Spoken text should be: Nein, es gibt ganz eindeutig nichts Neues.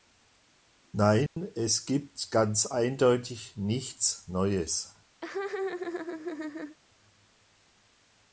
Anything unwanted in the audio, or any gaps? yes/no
yes